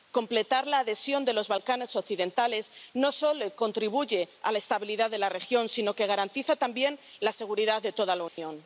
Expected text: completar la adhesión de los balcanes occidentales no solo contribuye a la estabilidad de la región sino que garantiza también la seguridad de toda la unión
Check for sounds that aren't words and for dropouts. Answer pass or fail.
fail